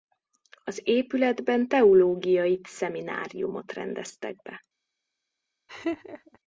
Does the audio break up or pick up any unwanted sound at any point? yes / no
yes